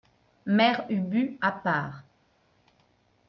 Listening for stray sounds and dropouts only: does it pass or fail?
pass